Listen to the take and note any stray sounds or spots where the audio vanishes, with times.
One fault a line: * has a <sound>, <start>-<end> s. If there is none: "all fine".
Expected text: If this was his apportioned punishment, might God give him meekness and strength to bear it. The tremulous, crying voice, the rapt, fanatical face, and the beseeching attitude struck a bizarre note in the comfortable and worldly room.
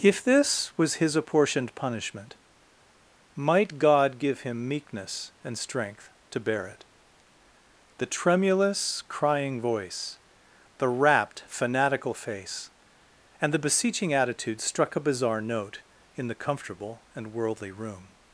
all fine